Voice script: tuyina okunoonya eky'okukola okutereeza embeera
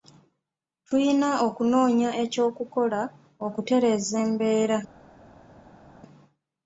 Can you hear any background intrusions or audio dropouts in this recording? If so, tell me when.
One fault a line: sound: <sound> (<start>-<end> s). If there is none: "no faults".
no faults